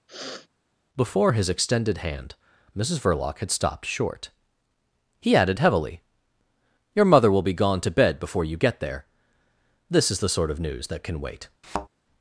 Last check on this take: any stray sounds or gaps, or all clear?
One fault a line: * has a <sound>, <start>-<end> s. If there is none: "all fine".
* has a sniff, 0.1-0.5 s
* has a thud, 11.6-11.9 s